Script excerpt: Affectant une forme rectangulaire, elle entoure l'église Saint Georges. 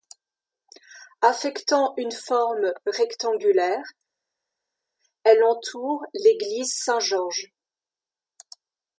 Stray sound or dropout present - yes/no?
no